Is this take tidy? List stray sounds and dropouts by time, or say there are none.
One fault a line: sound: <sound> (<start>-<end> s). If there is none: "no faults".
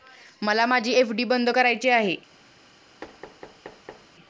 sound: thud (3.0-4.1 s)